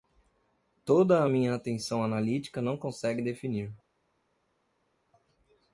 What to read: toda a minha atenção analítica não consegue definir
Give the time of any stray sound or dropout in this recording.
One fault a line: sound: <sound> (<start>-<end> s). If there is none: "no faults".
no faults